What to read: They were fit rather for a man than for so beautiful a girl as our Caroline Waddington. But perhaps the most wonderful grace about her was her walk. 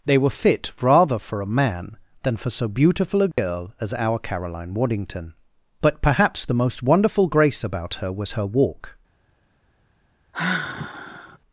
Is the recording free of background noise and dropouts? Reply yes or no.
no